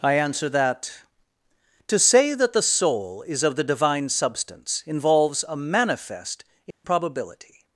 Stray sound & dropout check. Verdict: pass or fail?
fail